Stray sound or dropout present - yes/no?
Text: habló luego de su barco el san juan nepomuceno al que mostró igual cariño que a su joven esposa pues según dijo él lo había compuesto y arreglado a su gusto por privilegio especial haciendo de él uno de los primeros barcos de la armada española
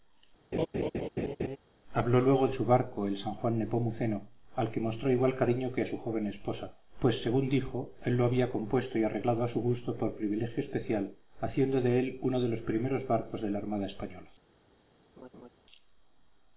yes